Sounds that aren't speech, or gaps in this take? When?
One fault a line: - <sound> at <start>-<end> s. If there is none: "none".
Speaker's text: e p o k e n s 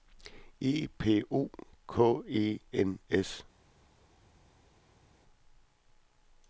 none